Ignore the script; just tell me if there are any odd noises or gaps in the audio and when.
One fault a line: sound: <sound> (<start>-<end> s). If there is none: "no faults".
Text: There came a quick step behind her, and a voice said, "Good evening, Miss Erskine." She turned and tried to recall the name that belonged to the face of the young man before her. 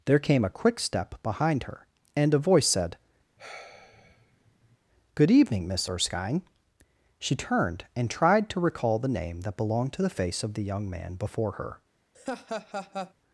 sound: sigh (3.4-4.8 s)
sound: laugh (12.1-13.1 s)